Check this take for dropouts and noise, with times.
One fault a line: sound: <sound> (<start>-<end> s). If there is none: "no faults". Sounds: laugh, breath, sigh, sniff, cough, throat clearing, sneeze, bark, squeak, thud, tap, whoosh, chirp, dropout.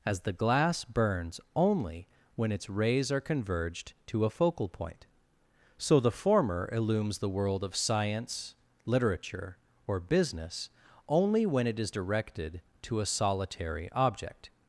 no faults